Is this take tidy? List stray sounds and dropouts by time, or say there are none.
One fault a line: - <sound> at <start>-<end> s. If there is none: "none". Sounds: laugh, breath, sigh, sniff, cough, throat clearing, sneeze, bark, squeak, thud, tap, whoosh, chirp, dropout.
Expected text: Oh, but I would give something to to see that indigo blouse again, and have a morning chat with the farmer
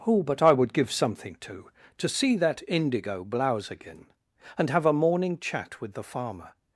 none